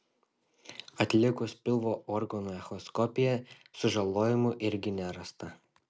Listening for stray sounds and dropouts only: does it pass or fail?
pass